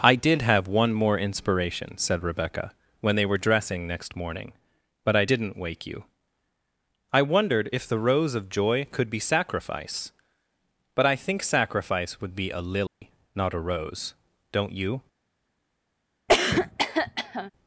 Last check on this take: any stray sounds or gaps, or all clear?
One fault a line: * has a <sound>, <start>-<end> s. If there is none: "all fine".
* has a dropout, 12.9-13.0 s
* has a cough, 16.3-17.5 s